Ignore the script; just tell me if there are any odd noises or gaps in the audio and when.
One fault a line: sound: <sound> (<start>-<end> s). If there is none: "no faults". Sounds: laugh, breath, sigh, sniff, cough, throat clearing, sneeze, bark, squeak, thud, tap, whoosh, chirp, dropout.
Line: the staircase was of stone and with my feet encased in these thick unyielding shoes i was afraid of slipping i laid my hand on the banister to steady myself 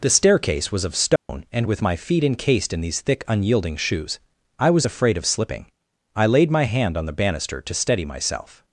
sound: dropout (1.2-1.3 s)